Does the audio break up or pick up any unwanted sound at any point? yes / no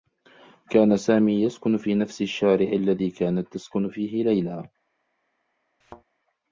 yes